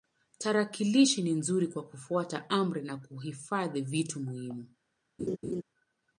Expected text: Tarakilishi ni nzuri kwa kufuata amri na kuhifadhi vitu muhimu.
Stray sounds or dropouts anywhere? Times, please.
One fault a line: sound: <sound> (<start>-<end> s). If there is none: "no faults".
sound: laugh (5.2-5.6 s)